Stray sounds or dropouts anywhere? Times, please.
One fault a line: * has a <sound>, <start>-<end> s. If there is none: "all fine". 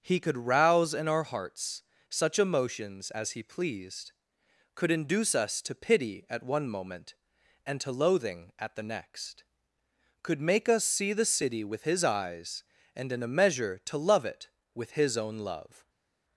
all fine